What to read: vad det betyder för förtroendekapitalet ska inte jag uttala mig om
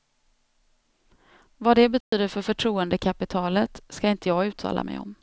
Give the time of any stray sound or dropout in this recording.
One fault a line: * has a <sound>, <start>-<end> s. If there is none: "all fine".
* has a dropout, 2.0-2.1 s